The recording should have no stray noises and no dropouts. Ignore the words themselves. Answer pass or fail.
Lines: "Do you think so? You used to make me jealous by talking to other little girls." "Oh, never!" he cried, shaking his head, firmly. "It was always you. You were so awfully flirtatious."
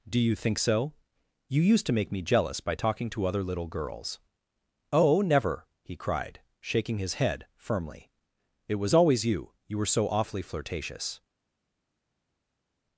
pass